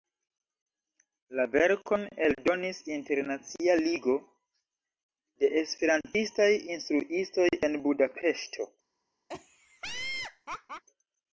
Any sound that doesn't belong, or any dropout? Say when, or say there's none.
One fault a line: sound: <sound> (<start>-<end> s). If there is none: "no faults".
sound: laugh (9.3-10.8 s)